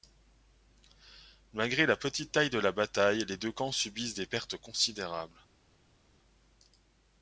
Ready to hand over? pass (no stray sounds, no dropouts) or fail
pass